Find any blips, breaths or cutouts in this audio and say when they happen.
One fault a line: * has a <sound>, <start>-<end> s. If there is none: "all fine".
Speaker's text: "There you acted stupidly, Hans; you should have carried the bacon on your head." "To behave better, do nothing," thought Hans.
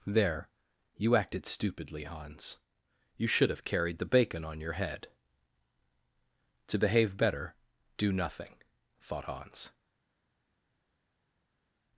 all fine